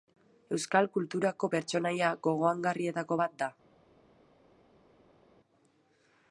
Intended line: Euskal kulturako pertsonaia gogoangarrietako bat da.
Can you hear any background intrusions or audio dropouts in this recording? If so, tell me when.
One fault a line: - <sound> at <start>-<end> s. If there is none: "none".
none